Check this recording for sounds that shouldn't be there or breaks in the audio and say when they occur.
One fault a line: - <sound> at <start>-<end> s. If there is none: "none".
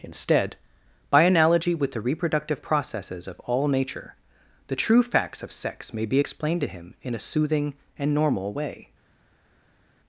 none